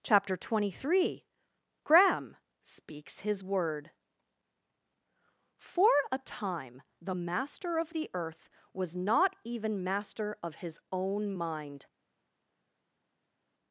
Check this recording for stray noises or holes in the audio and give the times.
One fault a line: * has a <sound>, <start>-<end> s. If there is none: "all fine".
all fine